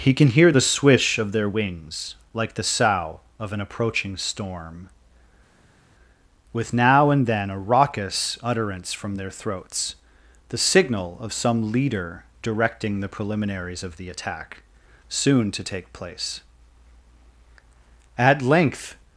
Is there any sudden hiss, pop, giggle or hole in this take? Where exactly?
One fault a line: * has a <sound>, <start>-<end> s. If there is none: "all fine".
all fine